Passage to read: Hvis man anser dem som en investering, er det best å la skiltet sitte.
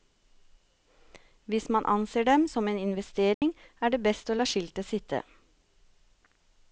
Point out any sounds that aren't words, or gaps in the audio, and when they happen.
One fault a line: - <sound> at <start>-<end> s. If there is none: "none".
- dropout at 3.3-3.4 s